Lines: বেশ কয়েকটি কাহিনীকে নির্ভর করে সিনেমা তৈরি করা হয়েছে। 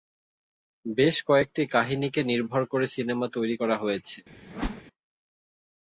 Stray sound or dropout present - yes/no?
yes